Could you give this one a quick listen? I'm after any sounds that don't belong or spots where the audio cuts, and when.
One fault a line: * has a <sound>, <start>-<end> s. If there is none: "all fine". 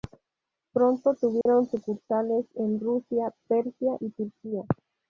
* has a dropout, 1.4-1.5 s